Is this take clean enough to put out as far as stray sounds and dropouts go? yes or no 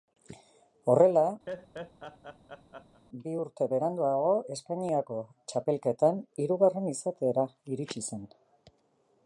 no